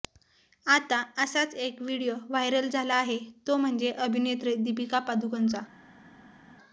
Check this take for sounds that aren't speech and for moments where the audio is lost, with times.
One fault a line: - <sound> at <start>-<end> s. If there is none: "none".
none